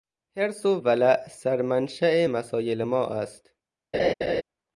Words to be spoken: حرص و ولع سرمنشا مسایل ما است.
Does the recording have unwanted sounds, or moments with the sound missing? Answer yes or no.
yes